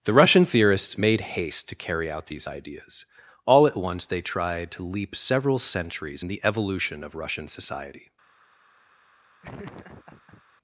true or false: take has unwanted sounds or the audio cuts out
true